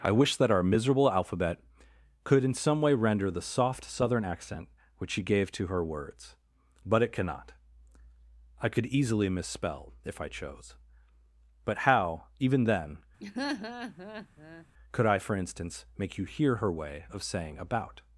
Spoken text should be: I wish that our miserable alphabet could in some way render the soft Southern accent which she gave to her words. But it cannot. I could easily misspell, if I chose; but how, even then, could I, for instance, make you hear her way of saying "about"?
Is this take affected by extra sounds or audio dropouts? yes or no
yes